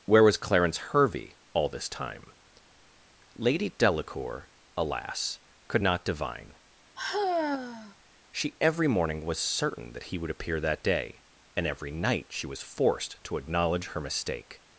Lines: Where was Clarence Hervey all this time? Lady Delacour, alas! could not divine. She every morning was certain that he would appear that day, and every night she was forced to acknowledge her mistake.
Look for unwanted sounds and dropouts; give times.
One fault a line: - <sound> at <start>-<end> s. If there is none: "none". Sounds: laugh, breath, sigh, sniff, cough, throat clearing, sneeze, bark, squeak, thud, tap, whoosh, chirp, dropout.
- sigh at 7.0-8.0 s